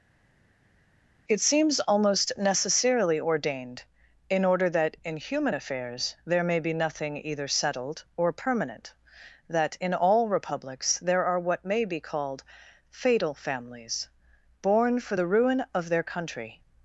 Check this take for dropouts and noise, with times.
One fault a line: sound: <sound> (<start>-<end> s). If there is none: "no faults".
no faults